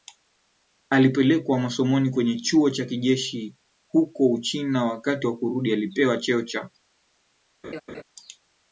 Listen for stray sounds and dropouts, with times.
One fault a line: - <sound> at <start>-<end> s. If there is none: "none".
- laugh at 7.6-8.0 s